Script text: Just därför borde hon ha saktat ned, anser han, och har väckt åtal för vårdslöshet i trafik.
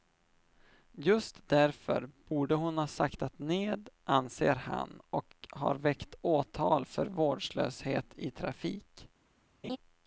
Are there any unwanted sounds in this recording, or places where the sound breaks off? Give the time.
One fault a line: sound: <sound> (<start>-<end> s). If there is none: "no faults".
sound: laugh (9.6-9.8 s)